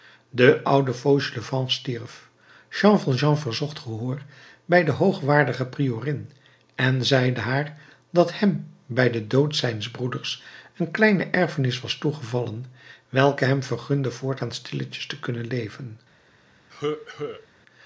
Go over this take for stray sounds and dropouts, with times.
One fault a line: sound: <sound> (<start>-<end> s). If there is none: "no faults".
sound: cough (16.7-17.5 s)